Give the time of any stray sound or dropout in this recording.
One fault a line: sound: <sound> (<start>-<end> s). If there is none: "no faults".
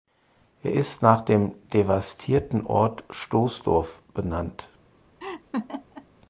sound: laugh (5.2-6.1 s)